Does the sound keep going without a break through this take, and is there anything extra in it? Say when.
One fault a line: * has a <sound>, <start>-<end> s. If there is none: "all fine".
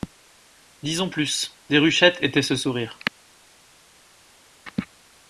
all fine